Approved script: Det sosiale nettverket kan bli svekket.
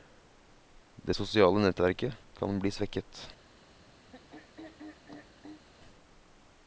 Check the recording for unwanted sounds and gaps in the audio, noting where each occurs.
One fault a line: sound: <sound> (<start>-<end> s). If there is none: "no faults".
sound: throat clearing (4.1-5.6 s)